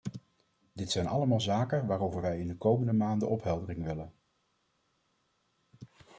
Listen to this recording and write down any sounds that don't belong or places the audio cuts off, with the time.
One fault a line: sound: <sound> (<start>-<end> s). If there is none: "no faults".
no faults